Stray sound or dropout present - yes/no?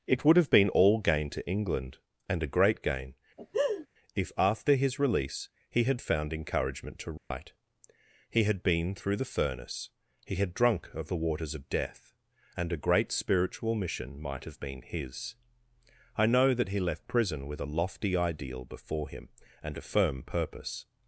yes